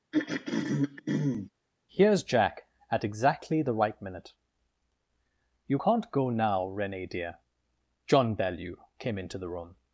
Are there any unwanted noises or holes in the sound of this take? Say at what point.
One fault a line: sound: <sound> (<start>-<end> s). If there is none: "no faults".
sound: throat clearing (0.1-1.5 s)